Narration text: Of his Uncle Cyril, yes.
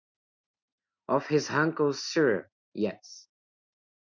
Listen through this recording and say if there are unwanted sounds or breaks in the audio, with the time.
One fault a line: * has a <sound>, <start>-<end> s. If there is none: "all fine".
all fine